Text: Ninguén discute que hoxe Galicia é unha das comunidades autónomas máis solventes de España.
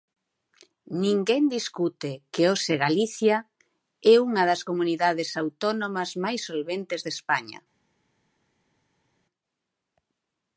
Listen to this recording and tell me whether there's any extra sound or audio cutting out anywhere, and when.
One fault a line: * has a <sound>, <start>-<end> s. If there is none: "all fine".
all fine